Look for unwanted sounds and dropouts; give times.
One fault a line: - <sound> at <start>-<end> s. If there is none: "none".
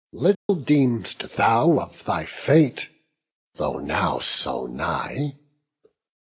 - dropout at 0.3-0.5 s